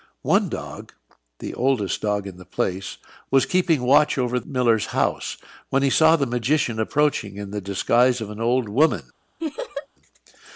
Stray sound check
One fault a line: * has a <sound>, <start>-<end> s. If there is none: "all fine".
* has a laugh, 9.4-9.9 s